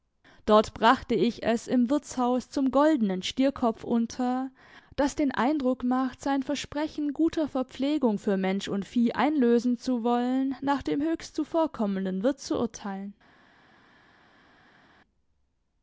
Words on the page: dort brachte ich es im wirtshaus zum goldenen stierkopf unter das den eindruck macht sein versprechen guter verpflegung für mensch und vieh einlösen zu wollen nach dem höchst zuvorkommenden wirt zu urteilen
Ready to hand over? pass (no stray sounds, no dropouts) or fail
pass